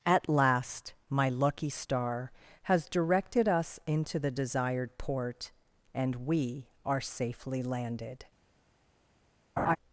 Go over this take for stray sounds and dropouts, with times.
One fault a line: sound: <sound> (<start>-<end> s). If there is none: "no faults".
sound: laugh (9.6-9.8 s)